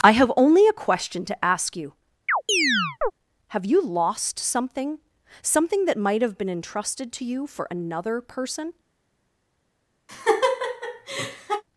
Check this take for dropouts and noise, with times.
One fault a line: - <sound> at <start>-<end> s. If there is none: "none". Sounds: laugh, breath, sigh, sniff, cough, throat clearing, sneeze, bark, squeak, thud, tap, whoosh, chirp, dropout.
- chirp at 2.3-3.1 s
- laugh at 10.1-11.6 s